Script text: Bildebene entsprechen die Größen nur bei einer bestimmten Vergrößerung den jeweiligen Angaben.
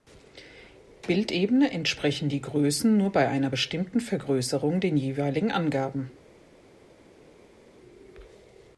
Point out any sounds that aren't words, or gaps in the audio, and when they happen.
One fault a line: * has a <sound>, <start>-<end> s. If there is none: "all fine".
all fine